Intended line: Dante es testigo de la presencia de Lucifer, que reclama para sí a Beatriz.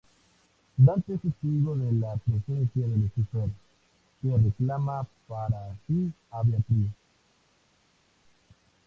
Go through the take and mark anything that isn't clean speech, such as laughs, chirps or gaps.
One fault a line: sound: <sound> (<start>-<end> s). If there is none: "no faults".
no faults